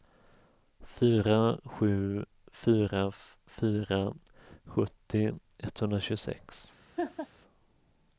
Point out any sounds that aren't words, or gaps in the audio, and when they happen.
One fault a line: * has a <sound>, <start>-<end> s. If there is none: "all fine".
* has a laugh, 7.0-7.3 s